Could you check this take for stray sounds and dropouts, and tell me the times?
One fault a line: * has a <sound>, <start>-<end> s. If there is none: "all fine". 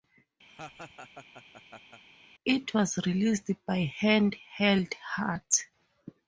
* has a laugh, 0.5-2.0 s